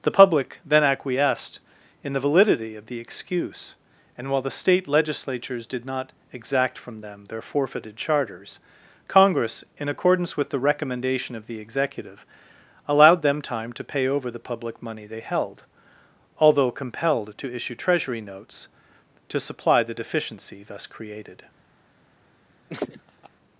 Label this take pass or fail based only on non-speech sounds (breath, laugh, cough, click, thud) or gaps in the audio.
fail